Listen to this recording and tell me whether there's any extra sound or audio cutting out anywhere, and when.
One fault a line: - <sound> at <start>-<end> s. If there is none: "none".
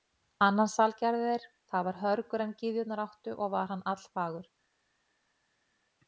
none